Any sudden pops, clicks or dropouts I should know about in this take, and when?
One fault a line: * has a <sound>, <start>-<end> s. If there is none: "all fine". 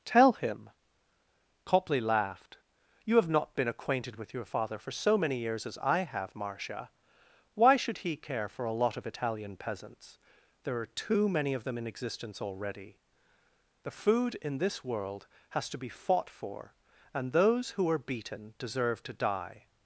all fine